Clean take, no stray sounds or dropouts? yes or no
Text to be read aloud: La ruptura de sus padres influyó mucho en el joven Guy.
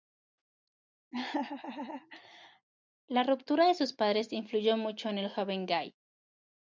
no